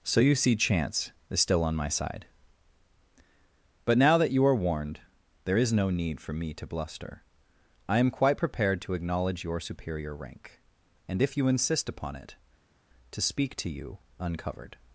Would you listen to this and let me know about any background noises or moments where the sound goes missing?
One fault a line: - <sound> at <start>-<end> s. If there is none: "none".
none